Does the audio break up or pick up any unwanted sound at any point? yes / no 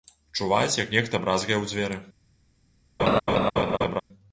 yes